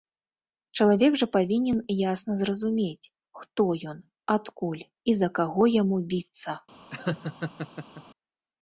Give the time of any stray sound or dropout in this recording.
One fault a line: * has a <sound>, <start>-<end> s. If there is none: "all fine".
* has a laugh, 6.9-8.0 s